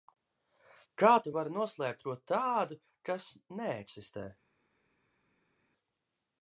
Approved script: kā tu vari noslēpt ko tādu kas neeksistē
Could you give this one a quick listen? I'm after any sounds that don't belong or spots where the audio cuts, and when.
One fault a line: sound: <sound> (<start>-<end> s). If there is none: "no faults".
no faults